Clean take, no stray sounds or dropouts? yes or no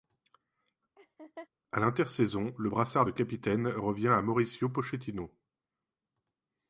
no